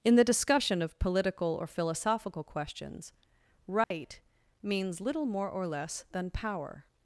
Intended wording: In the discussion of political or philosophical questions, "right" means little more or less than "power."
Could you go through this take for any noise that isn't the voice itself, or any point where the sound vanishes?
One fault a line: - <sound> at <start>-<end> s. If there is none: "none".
- dropout at 3.8-3.9 s